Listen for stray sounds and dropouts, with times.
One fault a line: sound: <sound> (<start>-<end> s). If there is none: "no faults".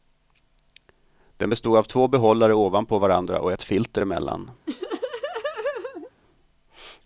sound: laugh (4.7-6.1 s)